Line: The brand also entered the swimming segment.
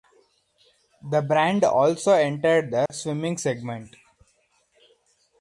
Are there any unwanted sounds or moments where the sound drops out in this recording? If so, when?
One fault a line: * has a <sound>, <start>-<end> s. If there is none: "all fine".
* has a dropout, 2.9-2.9 s